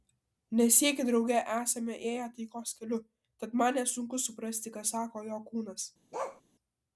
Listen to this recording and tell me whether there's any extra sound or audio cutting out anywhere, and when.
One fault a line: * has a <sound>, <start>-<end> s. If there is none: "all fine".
* has a bark, 6.1-6.4 s